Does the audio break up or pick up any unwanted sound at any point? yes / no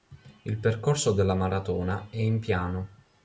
no